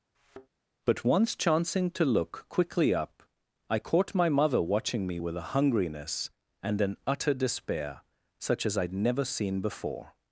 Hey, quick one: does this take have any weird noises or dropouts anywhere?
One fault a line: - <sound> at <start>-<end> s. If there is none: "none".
- thud at 0.1-0.5 s